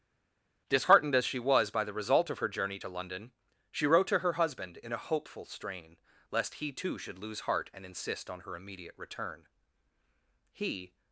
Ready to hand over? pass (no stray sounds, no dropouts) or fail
pass